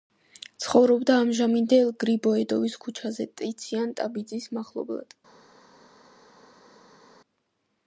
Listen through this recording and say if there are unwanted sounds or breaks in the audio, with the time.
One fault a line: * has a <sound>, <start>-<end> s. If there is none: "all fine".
all fine